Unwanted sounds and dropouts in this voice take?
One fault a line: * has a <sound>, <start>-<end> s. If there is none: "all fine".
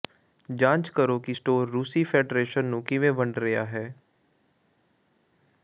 all fine